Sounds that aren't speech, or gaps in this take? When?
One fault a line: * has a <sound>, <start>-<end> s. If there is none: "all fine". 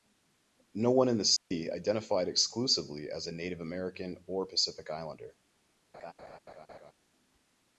* has a dropout, 1.4-1.5 s
* has a laugh, 5.9-6.9 s